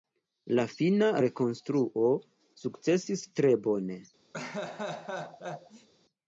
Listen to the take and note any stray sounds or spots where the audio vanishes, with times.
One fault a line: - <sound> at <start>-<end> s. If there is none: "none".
- laugh at 4.3-5.9 s